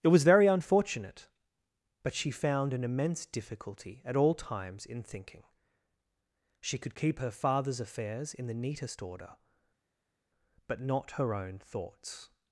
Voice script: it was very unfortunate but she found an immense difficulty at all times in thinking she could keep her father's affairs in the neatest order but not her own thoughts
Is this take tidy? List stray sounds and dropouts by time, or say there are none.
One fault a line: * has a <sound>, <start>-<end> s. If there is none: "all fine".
all fine